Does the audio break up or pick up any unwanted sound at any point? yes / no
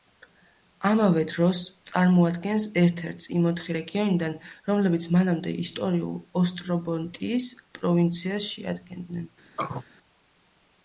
yes